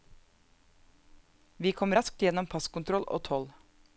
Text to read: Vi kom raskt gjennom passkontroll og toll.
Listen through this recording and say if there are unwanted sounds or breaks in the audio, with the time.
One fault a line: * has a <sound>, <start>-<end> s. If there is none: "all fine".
all fine